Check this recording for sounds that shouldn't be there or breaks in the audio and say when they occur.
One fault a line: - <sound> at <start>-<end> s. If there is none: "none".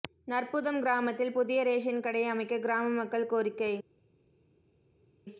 none